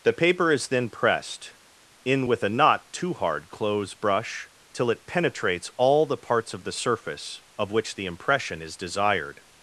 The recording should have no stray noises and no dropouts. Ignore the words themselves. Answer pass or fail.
pass